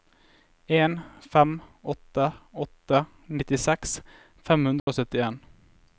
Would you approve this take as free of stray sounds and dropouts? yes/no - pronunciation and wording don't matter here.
no